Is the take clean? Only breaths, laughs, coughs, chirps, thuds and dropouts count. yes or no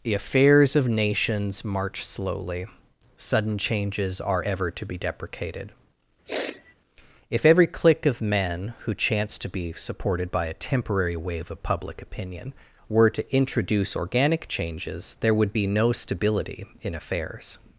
no